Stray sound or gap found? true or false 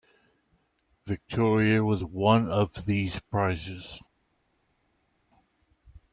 false